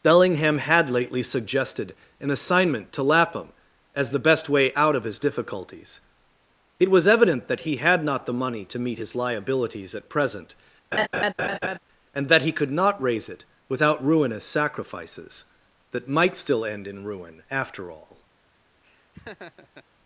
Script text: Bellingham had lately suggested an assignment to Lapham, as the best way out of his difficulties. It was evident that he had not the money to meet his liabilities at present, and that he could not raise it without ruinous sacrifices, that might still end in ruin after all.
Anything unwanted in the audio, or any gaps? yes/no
yes